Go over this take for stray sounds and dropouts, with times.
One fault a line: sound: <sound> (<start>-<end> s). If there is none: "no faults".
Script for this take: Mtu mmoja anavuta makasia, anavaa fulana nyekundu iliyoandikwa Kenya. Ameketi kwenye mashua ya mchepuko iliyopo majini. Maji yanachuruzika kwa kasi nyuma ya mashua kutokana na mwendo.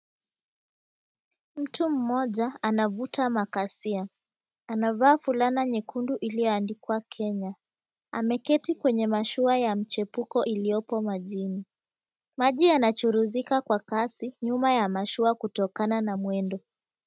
no faults